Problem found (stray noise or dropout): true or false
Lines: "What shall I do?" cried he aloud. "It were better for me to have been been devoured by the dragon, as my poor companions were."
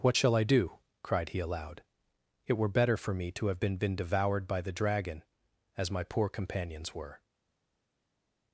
false